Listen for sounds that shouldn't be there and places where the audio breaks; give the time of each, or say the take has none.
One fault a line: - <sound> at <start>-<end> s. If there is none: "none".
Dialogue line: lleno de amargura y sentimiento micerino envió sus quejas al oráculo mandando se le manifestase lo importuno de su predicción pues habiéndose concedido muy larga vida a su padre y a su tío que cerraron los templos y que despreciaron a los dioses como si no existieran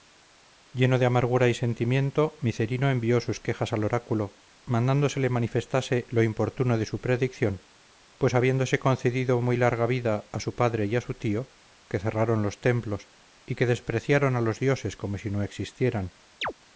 - chirp at 16.4-16.5 s